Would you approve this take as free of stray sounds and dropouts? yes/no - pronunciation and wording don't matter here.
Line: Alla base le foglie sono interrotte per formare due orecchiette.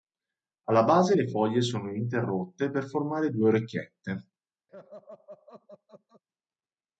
no